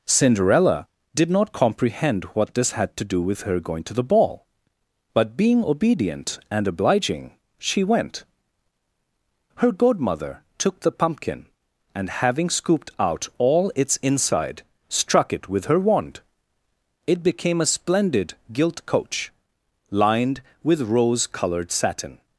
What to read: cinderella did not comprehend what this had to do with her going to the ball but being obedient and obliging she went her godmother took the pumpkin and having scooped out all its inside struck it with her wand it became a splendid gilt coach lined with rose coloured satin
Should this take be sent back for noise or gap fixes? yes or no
no